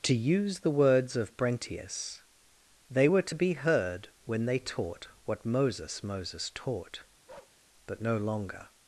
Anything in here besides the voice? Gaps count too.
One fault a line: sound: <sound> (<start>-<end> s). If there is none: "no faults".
sound: bark (7.3-7.6 s)